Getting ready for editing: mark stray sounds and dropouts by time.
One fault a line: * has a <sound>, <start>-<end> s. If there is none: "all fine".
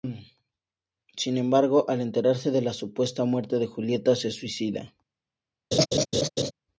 * has a laugh, 5.7-6.5 s